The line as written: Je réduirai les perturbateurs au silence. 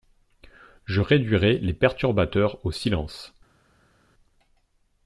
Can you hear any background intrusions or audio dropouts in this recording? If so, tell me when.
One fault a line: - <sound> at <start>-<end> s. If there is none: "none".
none